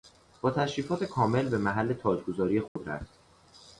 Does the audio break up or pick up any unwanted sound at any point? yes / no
yes